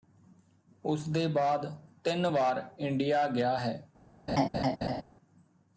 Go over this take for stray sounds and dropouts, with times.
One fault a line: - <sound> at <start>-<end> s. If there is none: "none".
- laugh at 4.3-5.0 s